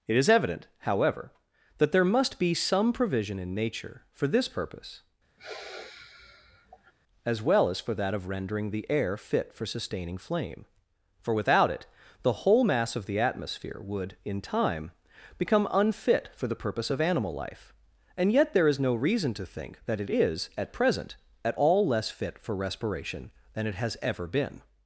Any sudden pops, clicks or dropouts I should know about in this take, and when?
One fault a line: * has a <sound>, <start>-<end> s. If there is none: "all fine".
* has a sigh, 5.4-6.9 s